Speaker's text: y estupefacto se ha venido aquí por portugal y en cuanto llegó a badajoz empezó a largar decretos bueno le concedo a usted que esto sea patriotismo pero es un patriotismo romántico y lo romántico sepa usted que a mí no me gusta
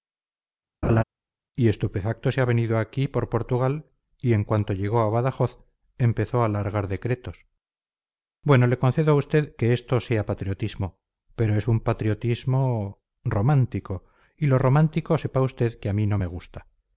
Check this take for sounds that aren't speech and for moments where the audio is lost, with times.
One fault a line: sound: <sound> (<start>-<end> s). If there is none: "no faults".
sound: laugh (0.8-1.0 s)